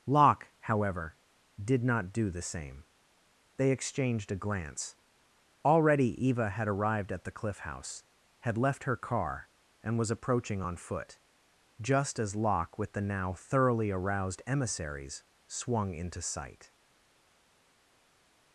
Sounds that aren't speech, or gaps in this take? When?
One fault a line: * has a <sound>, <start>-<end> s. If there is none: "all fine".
all fine